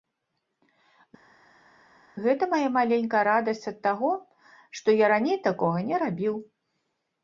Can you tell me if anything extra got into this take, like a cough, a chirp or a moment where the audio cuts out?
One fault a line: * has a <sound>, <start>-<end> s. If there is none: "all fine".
all fine